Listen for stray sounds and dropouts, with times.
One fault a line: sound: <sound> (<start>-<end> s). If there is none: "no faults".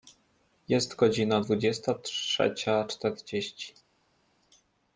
no faults